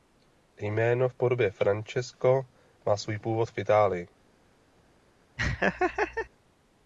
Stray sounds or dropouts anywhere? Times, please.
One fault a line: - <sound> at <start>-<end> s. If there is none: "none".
- laugh at 5.4-6.3 s